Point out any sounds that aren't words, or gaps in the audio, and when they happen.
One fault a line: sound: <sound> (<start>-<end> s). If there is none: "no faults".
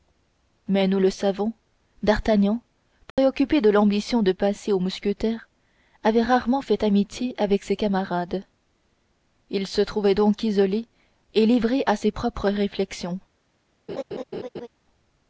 sound: dropout (3.1-3.2 s)
sound: laugh (13.9-14.7 s)